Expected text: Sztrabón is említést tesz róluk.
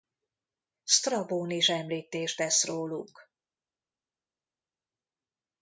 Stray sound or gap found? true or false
false